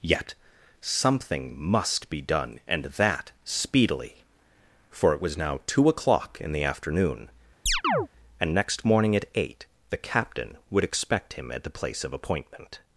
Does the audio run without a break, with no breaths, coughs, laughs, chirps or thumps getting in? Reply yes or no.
no